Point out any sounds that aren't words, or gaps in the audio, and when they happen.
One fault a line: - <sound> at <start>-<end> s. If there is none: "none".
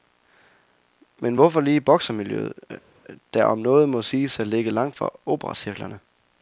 none